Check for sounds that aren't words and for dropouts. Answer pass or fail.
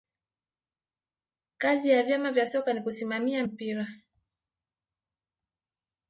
pass